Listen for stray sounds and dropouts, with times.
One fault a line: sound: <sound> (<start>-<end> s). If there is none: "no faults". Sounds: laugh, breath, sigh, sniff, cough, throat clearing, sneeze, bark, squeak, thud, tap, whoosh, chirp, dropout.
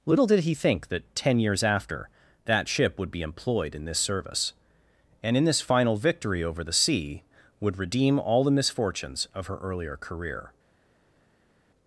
no faults